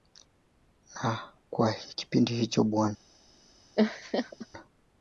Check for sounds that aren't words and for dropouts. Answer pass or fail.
fail